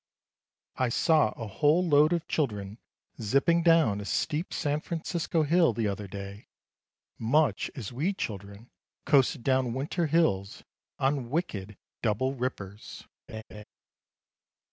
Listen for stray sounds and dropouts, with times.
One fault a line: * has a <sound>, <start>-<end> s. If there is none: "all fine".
* has a laugh, 13.3-13.6 s